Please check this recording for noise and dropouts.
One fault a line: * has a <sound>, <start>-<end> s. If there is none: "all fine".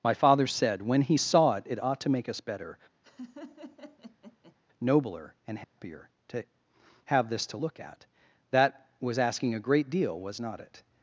* has a laugh, 3.0-4.6 s
* has a dropout, 5.6-5.8 s